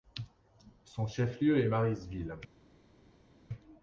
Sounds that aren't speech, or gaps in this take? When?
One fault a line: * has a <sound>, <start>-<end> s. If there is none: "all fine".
all fine